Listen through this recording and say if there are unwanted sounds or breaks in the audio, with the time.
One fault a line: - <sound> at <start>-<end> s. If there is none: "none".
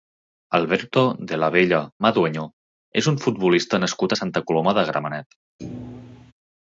- thud at 5.6-6.3 s